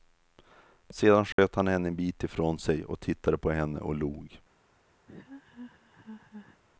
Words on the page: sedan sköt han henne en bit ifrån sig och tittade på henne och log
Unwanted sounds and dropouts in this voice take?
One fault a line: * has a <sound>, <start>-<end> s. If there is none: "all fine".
* has a dropout, 1.3-1.4 s
* has a laugh, 5.1-6.6 s